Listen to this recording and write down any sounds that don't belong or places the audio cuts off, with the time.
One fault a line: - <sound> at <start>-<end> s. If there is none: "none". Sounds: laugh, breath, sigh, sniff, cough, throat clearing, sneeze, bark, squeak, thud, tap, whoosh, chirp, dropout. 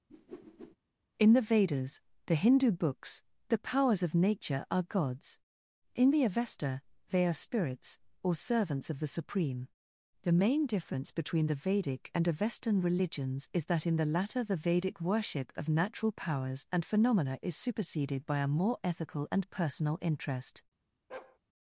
- whoosh at 0.1-0.8 s
- bark at 21.1-21.4 s